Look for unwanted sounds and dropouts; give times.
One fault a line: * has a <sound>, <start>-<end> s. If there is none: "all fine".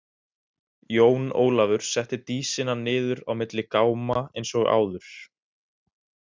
all fine